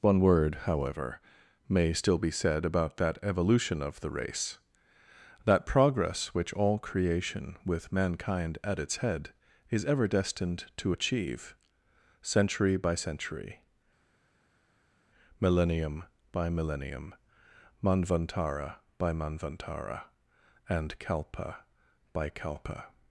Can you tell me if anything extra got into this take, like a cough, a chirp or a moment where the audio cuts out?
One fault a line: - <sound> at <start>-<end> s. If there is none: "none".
none